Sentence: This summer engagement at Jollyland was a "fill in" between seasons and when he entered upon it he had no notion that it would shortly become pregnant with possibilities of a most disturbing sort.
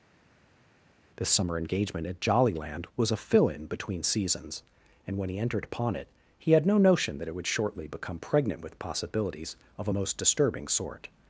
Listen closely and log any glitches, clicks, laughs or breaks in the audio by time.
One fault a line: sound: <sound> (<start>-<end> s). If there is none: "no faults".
no faults